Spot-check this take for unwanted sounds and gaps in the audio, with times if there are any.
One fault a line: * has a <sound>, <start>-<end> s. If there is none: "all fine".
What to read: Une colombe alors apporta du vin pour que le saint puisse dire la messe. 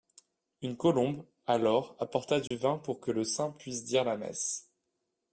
* has a dropout, 2.5-2.5 s